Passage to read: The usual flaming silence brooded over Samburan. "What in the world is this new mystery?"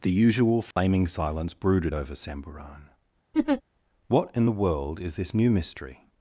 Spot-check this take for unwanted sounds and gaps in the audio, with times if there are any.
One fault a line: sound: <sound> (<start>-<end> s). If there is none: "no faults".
sound: dropout (0.7-0.8 s)
sound: laugh (3.3-3.6 s)